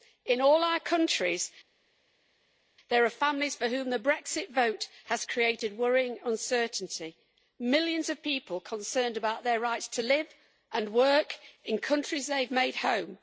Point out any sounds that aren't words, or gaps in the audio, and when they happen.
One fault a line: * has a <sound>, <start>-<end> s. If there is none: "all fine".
all fine